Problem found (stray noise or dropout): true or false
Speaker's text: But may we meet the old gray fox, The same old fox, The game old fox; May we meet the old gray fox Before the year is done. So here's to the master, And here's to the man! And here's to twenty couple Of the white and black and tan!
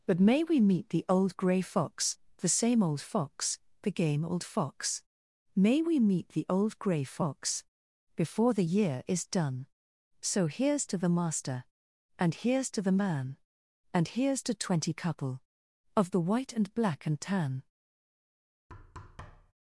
true